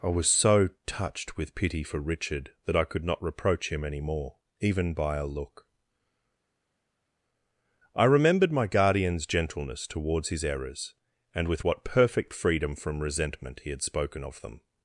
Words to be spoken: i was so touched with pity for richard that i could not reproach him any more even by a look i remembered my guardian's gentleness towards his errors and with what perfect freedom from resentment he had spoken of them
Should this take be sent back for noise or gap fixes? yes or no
no